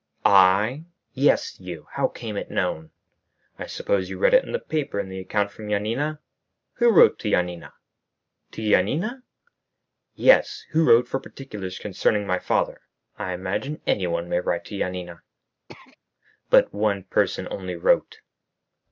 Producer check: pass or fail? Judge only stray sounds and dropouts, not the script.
fail